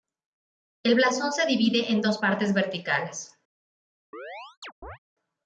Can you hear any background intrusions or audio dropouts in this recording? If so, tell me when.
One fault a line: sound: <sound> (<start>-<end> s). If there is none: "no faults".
sound: chirp (4.1-5.0 s)